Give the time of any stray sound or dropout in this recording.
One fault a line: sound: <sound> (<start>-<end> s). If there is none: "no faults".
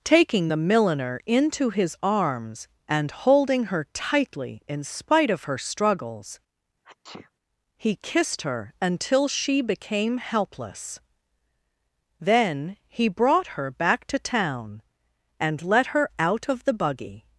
sound: sneeze (6.8-7.3 s)